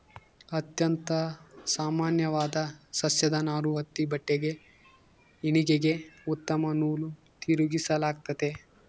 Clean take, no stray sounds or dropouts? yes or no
yes